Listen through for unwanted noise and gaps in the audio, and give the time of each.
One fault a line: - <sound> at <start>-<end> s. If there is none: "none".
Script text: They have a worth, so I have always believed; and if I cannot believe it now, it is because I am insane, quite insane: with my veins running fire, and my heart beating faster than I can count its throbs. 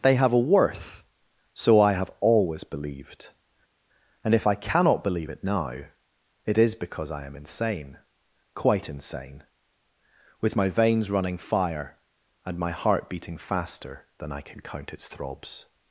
none